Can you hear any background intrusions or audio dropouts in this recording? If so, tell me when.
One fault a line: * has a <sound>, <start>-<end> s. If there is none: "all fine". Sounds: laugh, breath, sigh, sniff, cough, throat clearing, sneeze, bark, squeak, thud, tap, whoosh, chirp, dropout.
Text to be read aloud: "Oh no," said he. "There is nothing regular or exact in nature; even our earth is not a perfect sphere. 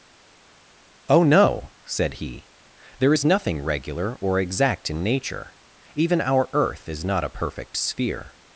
all fine